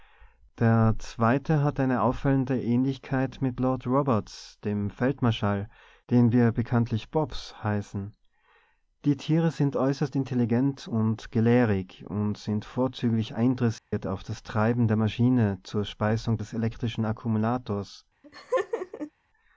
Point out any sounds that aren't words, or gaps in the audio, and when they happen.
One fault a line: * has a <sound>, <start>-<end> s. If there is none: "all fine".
* has a dropout, 13.8-13.9 s
* has a laugh, 18.2-19.1 s